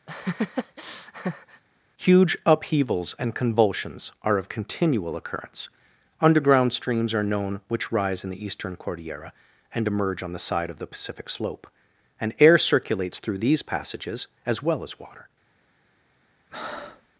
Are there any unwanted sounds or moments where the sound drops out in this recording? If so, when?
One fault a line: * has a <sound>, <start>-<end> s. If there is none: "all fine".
* has a laugh, 0.1-1.6 s
* has a breath, 16.5-17.1 s